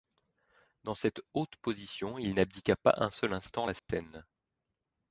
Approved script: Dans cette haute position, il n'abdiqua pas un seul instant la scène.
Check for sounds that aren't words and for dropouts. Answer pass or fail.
fail